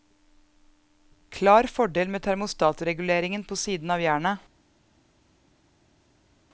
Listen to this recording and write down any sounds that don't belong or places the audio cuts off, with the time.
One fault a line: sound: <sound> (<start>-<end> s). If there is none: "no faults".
no faults